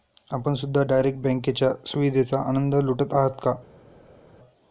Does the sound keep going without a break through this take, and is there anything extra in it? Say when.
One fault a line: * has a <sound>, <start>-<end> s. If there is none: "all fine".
all fine